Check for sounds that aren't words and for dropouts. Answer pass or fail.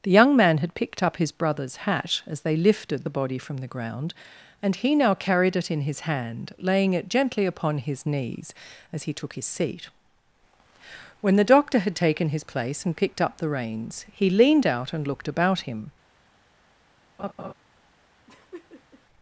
fail